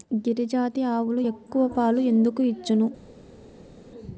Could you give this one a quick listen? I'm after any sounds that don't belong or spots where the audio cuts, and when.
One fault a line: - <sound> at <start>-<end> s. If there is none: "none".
none